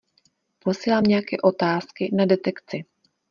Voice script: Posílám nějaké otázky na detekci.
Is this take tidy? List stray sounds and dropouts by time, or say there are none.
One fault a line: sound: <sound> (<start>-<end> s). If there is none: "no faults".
no faults